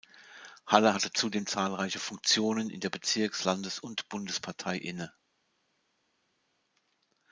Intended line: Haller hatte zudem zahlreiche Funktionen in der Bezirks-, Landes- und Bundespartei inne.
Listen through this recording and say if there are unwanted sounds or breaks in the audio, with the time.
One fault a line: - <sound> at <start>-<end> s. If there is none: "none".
none